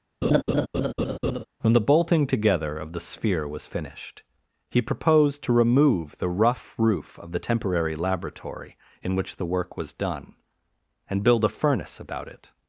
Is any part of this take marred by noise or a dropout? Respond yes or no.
yes